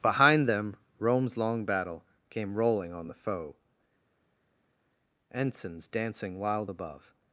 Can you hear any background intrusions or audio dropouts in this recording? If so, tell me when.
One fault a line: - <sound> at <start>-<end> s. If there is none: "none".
none